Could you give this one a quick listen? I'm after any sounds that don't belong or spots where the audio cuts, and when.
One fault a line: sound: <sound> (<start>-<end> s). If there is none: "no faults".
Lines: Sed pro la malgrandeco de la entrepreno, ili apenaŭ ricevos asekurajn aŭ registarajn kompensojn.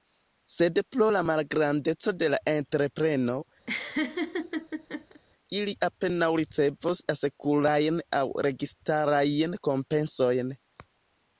sound: laugh (3.7-5.2 s)